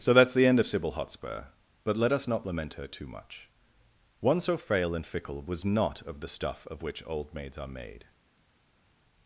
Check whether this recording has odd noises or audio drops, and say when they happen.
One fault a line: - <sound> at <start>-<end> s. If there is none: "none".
none